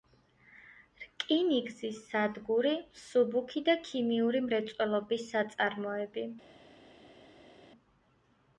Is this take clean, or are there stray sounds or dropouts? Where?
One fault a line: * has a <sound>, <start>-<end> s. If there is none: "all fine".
all fine